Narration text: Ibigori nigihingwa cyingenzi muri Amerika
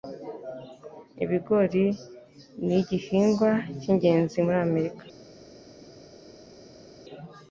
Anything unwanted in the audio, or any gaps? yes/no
no